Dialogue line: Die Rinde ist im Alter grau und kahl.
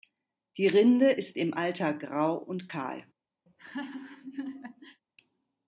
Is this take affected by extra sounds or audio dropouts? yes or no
yes